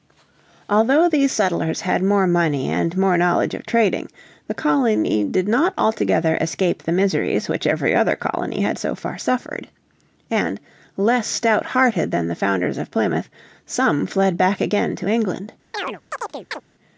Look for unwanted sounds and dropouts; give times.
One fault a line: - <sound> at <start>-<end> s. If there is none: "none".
- chirp at 15.7-16.6 s